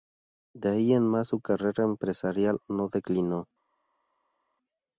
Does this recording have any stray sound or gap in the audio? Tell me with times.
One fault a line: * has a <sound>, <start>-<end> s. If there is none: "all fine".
all fine